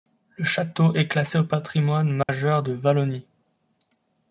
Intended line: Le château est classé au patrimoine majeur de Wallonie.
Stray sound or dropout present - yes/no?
yes